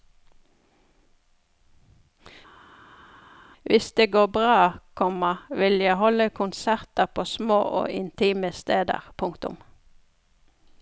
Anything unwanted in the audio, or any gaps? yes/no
no